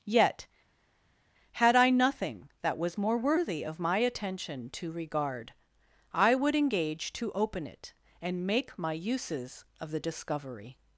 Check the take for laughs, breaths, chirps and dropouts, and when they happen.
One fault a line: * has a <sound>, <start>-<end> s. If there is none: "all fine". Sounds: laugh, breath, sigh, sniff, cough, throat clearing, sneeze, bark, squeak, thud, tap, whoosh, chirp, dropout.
all fine